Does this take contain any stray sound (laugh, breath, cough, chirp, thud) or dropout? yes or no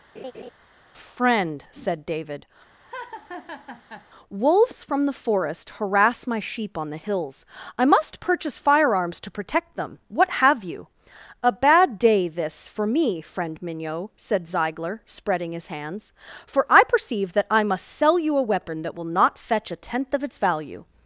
yes